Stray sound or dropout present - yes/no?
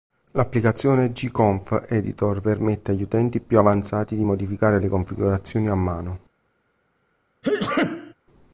yes